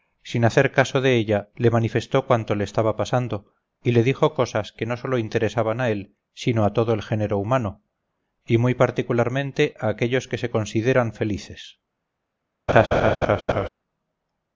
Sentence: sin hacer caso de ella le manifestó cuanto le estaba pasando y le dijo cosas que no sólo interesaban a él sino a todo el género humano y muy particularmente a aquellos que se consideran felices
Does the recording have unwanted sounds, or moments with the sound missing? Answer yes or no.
yes